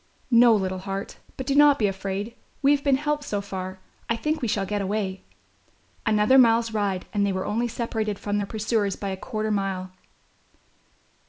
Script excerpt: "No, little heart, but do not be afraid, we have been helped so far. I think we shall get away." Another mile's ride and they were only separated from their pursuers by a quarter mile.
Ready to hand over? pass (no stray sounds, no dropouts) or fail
pass